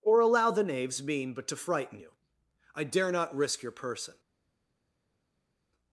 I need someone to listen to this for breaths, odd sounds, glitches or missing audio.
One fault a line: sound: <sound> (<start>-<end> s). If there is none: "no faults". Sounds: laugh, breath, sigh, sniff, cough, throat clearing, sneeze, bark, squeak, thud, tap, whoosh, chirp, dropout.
no faults